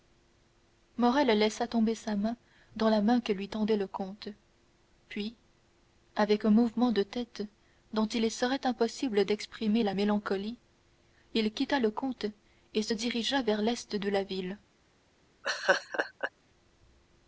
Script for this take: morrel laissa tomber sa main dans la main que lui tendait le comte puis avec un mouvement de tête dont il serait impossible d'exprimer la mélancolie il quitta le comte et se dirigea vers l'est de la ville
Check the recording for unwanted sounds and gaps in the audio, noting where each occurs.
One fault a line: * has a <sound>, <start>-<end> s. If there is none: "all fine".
* has a laugh, 15.4-16.3 s